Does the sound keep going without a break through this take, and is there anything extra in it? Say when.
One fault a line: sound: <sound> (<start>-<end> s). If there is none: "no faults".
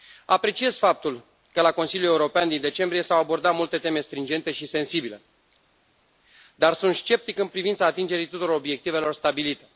no faults